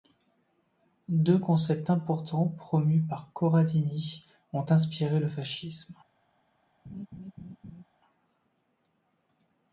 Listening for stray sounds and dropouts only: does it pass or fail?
fail